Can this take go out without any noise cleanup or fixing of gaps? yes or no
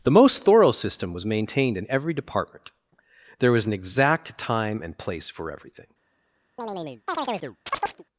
no